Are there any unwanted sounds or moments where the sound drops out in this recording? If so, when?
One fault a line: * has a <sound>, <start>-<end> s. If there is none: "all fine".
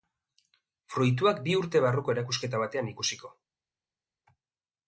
all fine